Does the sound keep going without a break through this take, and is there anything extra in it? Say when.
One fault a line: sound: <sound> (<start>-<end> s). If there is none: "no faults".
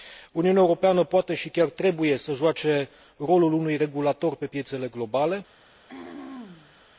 sound: throat clearing (5.9-6.8 s)